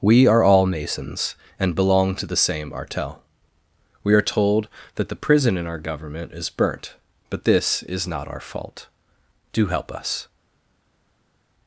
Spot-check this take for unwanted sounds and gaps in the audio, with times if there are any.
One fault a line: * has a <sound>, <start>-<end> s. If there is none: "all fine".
all fine